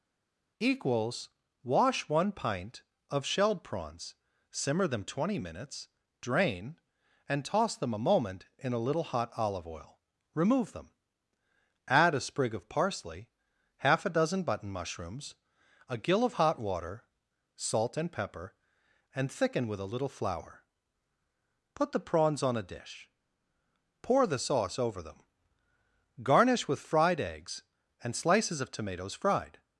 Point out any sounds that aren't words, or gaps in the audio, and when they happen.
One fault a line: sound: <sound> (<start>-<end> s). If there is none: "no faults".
no faults